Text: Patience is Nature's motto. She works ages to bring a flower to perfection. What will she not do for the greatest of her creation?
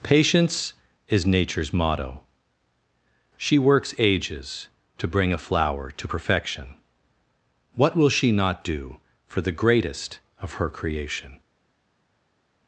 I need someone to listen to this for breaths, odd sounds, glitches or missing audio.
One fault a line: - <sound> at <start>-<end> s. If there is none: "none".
none